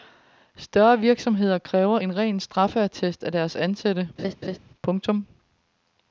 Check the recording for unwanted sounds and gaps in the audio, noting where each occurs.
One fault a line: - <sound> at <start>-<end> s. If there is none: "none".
- laugh at 4.2-4.6 s